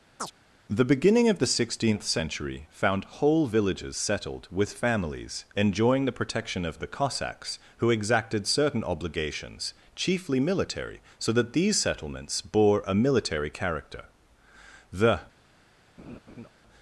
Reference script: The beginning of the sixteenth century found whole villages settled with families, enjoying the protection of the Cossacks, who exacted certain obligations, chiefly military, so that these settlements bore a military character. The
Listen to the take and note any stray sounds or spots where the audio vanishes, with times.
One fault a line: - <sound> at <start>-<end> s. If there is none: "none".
- chirp at 0.2-0.3 s
- laugh at 16.0-16.5 s